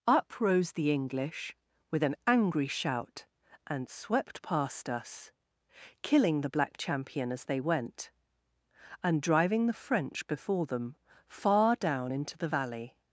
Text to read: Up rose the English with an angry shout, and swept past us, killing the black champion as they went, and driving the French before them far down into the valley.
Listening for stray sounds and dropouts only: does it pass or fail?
pass